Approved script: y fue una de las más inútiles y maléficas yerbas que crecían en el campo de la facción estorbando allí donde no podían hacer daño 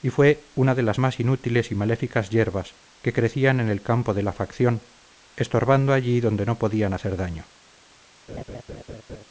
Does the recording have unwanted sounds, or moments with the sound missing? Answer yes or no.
yes